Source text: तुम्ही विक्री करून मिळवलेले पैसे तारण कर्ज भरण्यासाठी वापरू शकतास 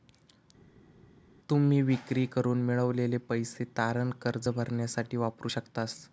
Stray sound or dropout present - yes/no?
no